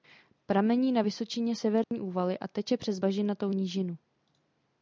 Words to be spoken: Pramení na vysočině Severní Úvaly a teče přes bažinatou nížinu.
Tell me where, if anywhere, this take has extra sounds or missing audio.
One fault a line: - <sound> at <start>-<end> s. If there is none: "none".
- dropout at 1.8-1.9 s